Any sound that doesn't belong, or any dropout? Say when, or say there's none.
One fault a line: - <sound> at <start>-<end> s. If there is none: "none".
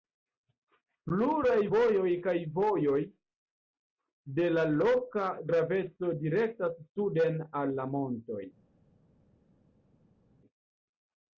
none